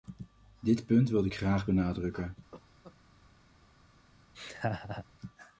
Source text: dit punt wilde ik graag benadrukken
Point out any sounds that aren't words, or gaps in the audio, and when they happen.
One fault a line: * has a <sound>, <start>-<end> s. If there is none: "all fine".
* has a cough, 2.5-2.9 s
* has a laugh, 4.3-5.0 s